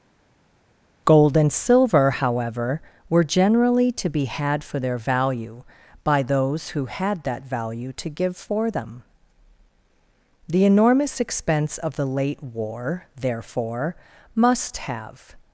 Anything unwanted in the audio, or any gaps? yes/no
no